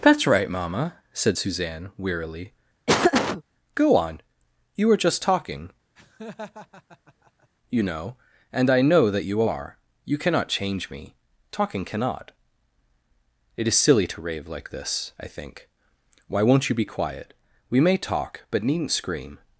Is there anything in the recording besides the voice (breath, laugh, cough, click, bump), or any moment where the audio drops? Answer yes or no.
yes